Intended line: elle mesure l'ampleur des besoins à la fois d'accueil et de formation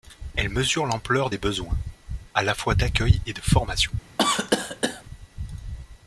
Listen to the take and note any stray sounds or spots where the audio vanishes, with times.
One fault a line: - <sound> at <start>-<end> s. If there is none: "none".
- cough at 4.2-5.0 s